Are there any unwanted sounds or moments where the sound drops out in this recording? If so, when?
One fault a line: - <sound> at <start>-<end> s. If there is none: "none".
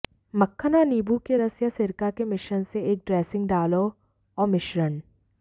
none